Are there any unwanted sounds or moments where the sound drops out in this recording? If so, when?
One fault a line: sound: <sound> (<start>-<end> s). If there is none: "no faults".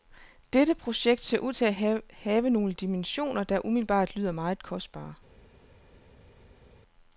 no faults